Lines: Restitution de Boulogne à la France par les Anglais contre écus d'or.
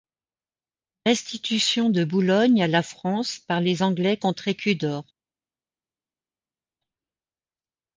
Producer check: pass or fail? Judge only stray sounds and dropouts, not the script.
pass